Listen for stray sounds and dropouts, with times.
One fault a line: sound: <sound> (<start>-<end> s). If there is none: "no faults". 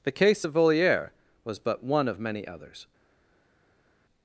no faults